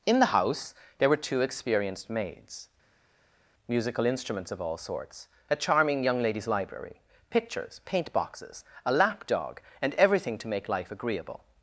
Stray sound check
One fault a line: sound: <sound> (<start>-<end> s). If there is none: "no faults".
no faults